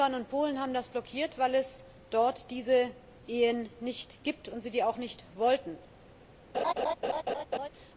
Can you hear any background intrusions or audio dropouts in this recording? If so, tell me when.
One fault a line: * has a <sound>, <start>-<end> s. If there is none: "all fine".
* has a laugh, 6.5-7.7 s